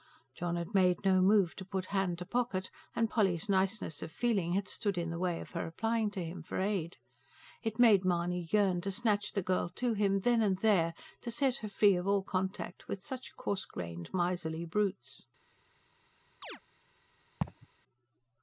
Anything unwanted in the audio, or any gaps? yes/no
yes